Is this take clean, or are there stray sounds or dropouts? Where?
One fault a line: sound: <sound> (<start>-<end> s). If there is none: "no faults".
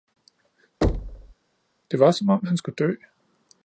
sound: thud (0.8-1.3 s)